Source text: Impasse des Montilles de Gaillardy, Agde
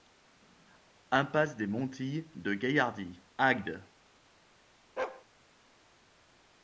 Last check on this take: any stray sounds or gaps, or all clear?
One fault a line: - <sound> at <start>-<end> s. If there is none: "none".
- bark at 5.0-5.3 s